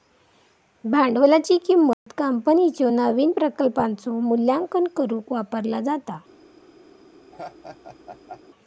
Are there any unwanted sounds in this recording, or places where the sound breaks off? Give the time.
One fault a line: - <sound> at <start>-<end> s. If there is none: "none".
- dropout at 1.9-2.1 s
- laugh at 7.3-8.4 s